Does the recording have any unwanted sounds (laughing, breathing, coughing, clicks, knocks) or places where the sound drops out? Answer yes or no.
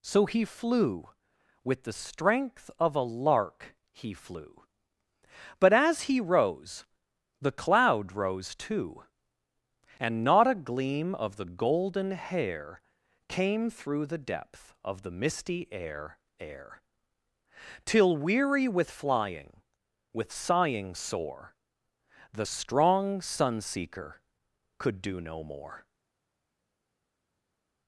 no